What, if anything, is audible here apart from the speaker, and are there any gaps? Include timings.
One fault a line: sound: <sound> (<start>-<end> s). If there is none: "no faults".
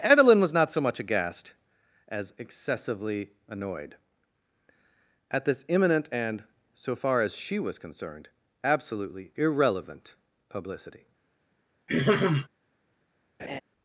sound: throat clearing (11.9-12.5 s)
sound: laugh (13.4-13.6 s)